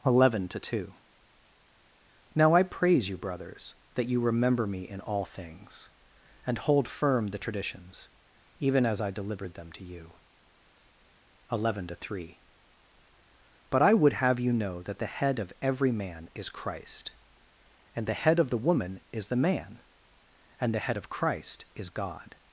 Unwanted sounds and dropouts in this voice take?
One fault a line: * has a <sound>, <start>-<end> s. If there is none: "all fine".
all fine